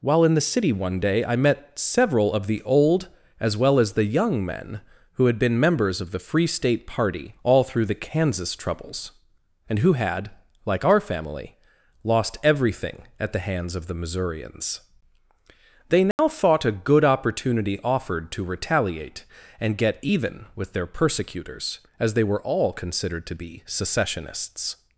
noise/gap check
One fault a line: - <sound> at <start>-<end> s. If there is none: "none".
- dropout at 16.1-16.2 s